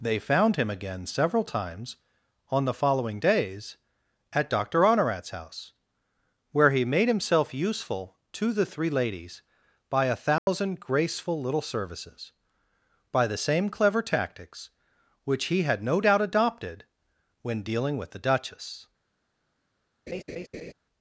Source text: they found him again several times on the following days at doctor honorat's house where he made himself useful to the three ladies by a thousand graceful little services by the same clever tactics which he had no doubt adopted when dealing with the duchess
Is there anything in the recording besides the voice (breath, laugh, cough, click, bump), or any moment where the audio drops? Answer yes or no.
yes